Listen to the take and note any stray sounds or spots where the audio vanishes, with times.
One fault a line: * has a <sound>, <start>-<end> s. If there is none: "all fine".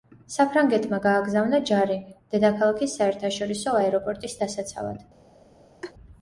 * has a laugh, 5.8-5.9 s